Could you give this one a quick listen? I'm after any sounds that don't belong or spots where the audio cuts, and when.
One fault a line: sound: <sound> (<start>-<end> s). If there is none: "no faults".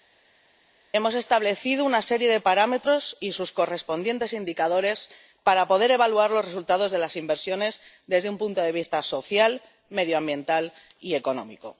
no faults